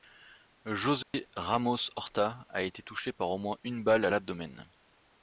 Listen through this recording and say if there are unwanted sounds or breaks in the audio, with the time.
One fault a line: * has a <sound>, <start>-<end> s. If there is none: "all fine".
* has a dropout, 1.0-1.1 s